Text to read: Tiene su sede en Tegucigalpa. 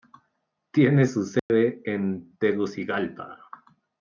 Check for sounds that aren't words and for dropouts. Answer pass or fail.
fail